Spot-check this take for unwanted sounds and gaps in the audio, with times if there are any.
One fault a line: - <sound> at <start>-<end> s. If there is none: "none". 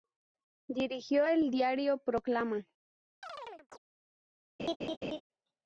- chirp at 3.2-3.8 s
- laugh at 4.6-5.2 s